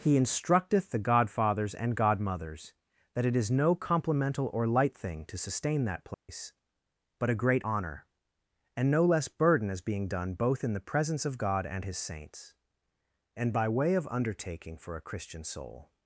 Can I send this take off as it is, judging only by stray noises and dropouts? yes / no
no